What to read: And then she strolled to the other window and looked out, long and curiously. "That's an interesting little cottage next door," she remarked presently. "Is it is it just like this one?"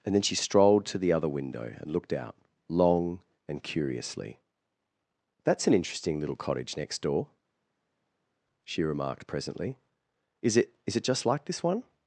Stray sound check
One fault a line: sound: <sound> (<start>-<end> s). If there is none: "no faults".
no faults